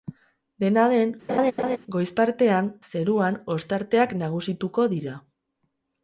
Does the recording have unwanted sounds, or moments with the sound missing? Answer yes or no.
yes